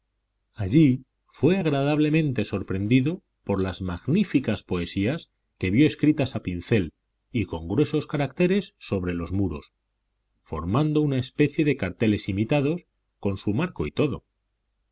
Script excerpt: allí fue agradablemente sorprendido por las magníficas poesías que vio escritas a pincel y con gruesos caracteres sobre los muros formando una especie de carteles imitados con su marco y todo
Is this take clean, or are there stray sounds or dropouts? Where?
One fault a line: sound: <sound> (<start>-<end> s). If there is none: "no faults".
no faults